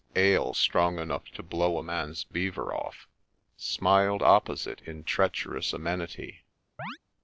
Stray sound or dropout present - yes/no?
yes